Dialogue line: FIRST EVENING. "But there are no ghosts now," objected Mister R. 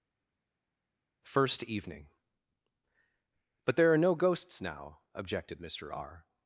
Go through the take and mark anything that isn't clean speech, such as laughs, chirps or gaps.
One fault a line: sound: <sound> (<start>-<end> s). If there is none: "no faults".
no faults